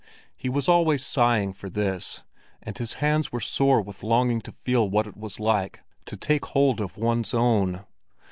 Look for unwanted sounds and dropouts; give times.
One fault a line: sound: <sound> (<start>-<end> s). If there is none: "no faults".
no faults